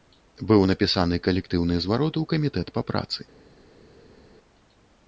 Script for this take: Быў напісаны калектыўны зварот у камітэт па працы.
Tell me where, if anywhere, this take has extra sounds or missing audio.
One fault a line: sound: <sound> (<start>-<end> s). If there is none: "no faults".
no faults